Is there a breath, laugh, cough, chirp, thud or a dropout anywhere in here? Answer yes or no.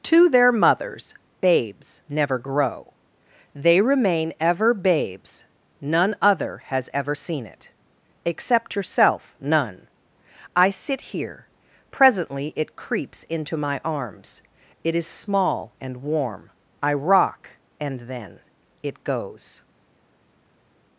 no